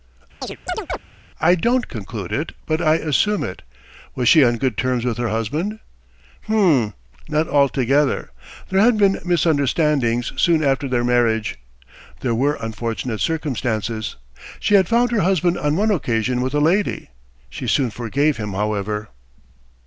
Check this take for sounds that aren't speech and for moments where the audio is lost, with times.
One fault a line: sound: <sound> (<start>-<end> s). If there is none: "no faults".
sound: chirp (0.4-1.0 s)